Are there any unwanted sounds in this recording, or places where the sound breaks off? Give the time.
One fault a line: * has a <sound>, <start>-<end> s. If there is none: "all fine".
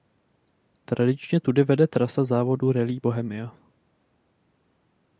all fine